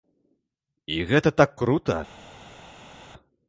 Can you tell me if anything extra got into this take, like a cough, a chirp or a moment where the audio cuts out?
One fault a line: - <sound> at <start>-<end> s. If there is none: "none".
none